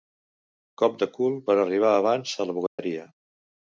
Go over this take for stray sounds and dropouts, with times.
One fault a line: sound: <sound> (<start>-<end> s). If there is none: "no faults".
sound: dropout (2.7-2.8 s)